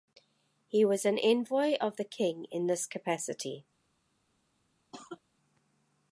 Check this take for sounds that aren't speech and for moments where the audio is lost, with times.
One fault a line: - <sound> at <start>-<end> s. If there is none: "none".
- cough at 4.9-5.2 s